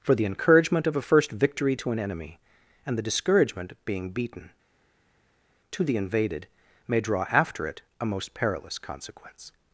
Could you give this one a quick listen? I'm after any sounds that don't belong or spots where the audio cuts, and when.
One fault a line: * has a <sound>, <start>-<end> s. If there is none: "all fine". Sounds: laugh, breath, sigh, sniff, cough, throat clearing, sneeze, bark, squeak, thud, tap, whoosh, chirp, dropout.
all fine